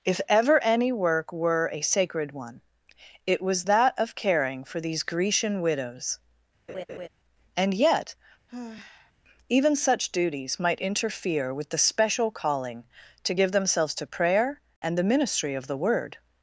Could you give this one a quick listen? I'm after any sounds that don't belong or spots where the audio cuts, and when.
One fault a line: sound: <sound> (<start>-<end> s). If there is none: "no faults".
sound: laugh (6.7-7.1 s)
sound: sigh (8.5-9.1 s)